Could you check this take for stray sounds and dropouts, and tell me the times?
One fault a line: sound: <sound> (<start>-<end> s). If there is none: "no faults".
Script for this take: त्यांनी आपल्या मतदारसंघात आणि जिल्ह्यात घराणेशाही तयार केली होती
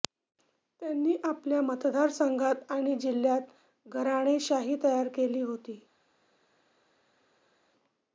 no faults